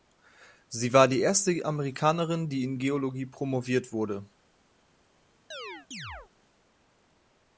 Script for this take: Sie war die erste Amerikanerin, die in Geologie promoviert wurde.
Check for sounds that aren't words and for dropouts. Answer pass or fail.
fail